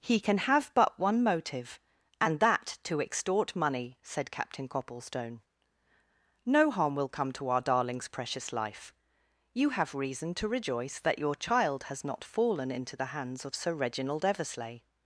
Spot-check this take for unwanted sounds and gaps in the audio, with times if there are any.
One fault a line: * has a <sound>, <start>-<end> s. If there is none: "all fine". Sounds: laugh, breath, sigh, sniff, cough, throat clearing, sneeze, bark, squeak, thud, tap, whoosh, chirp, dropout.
all fine